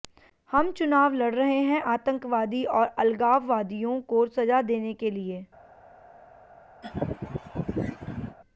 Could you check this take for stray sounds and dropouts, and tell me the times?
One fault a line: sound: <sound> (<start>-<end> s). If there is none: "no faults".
sound: laugh (6.8-8.4 s)